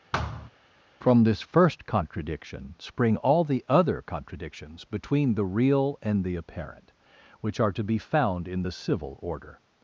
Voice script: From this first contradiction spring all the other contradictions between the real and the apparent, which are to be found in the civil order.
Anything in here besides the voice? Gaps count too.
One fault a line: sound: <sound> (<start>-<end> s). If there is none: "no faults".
sound: thud (0.1-0.5 s)